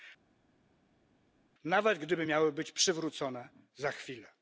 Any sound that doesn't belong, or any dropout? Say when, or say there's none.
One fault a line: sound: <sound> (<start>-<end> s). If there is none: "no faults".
no faults